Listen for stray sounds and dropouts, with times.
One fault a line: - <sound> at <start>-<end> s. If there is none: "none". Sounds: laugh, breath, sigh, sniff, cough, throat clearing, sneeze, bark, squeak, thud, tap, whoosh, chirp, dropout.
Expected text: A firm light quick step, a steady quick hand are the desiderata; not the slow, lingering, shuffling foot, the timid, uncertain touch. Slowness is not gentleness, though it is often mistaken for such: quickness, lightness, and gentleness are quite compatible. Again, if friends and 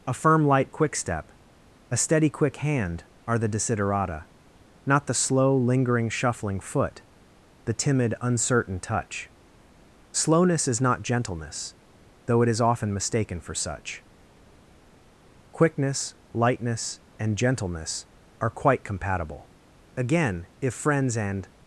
none